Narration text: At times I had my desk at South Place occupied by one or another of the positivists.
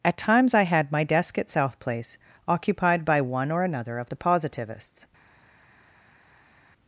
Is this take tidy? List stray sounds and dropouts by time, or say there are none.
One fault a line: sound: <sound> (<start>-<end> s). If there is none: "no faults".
no faults